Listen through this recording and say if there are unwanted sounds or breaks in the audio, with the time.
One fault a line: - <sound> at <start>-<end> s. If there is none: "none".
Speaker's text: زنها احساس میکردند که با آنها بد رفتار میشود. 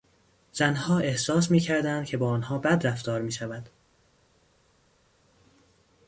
none